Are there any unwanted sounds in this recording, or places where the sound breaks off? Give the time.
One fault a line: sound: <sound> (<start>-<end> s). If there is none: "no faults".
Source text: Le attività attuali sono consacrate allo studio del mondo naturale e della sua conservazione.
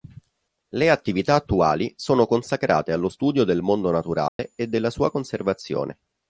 sound: dropout (4.3-4.4 s)